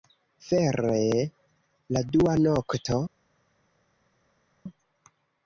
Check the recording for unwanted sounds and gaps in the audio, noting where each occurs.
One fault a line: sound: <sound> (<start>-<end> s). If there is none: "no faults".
no faults